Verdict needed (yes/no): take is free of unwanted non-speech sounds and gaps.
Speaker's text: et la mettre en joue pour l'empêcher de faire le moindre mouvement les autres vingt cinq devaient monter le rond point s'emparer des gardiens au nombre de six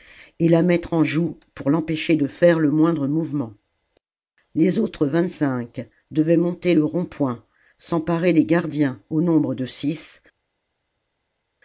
yes